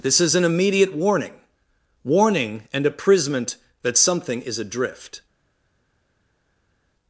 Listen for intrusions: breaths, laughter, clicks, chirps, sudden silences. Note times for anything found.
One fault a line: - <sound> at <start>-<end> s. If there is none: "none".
none